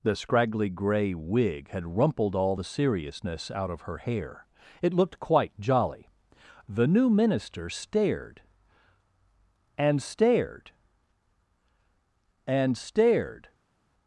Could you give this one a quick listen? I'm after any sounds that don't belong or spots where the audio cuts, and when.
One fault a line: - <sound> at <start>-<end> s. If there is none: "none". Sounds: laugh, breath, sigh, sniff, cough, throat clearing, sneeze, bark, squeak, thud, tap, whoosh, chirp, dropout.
none